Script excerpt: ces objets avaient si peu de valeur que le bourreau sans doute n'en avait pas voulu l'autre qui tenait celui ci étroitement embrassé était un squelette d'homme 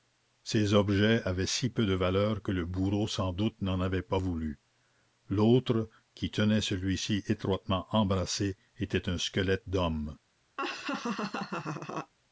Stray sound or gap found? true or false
true